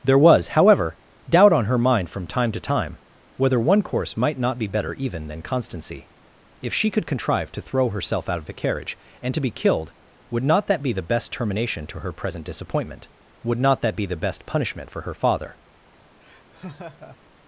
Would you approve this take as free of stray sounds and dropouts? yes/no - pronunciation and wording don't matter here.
no